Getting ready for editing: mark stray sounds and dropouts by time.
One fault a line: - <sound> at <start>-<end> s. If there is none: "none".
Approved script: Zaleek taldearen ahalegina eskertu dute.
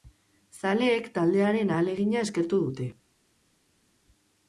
none